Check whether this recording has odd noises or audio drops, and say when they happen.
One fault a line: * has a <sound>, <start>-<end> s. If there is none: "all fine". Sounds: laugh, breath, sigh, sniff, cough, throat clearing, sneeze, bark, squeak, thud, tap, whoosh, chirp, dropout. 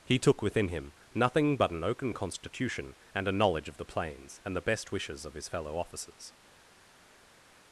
all fine